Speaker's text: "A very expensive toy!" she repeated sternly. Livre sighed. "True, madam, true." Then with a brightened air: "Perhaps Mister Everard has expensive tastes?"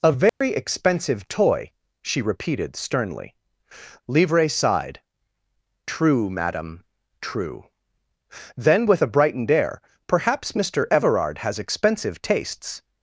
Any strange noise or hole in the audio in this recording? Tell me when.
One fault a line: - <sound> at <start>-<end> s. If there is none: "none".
- dropout at 0.3-0.4 s